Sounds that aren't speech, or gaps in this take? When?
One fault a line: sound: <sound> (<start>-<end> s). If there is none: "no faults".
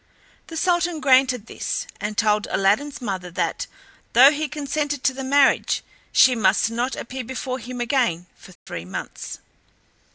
sound: dropout (8.6-8.7 s)